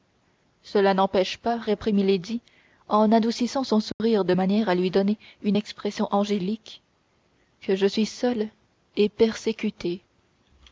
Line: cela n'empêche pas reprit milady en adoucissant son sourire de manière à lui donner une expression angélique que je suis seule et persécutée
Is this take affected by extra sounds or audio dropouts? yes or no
yes